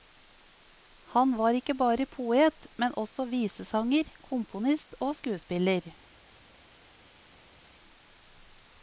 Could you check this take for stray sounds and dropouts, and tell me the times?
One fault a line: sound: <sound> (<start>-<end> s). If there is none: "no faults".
no faults